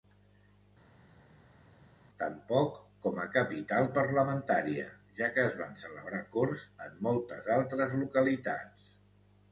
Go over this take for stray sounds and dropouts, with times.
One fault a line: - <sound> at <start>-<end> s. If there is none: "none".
none